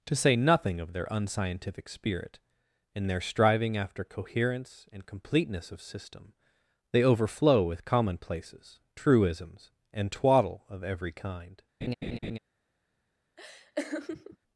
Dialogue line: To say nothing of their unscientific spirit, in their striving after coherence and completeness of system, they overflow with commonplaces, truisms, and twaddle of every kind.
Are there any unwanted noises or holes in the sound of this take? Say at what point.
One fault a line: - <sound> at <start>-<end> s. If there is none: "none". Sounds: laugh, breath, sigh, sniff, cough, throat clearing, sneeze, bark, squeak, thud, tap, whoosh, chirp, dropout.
- laugh at 11.8-12.4 s
- laugh at 13.4-14.4 s